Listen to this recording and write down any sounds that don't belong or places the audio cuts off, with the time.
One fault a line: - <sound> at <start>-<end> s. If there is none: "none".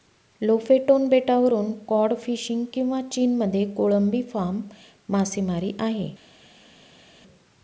none